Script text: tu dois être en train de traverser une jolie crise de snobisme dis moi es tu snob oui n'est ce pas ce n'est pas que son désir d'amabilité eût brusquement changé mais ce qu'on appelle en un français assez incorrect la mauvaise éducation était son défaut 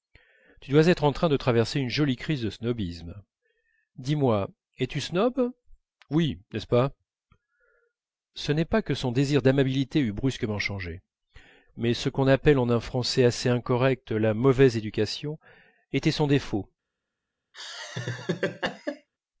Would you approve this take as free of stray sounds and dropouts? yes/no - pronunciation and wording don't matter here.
no